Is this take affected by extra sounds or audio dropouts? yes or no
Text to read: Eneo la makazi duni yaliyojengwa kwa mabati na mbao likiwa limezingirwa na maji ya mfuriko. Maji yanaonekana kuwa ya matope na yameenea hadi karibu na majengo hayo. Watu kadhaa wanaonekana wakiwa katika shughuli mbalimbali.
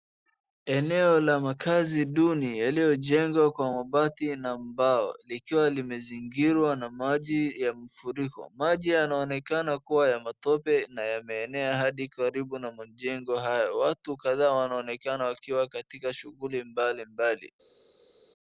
no